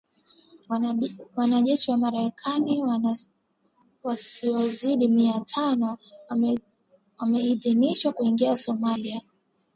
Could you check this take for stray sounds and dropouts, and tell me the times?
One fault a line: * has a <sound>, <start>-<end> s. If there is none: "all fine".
all fine